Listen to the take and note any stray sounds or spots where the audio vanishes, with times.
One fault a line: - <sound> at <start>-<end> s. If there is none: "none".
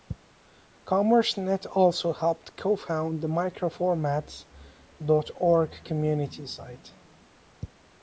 none